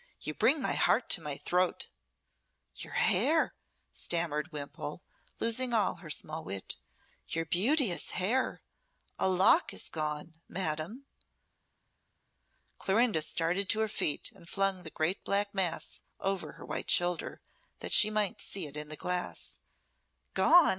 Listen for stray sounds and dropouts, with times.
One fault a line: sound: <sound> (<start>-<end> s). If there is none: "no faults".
no faults